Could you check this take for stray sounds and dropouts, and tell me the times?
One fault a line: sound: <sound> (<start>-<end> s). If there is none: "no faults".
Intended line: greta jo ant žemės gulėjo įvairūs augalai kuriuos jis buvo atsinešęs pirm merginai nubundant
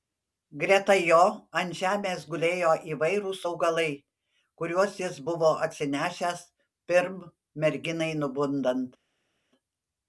no faults